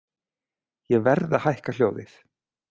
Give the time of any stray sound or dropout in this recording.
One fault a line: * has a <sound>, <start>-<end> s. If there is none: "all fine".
all fine